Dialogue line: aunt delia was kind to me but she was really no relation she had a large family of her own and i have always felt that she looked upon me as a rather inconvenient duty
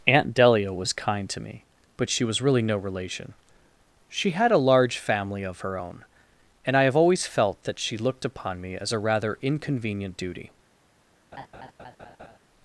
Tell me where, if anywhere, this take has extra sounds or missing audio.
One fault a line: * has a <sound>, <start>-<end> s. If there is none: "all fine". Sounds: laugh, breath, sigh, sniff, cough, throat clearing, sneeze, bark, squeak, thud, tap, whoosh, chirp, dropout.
* has a laugh, 11.3-12.4 s